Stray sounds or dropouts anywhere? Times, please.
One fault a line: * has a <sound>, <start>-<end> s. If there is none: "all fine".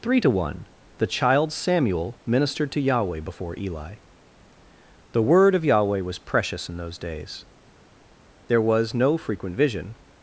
all fine